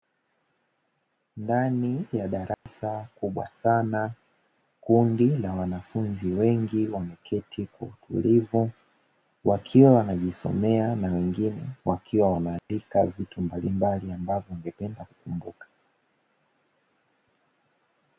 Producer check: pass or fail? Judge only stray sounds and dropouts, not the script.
fail